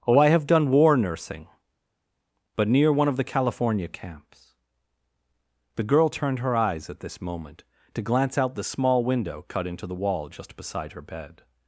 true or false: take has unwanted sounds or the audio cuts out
false